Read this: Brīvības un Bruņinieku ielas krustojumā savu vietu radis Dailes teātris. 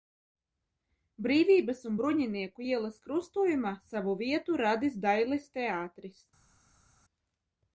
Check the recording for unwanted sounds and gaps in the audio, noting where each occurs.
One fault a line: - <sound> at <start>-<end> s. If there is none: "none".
none